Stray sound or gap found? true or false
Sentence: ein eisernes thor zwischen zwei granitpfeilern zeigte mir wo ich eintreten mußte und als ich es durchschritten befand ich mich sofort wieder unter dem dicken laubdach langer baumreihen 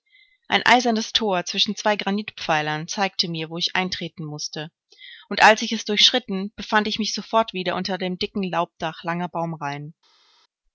false